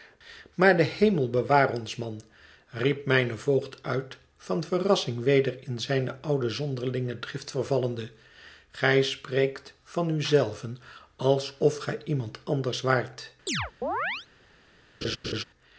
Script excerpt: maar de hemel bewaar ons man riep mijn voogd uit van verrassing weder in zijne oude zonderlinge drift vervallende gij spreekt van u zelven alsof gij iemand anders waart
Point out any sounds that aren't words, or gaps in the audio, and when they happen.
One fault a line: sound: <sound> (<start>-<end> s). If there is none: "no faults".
sound: chirp (13.5-14.3 s)
sound: laugh (15.0-15.4 s)